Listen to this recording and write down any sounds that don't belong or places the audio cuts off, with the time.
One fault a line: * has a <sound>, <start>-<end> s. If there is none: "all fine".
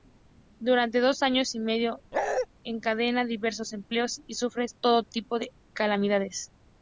* has a bark, 2.1-2.5 s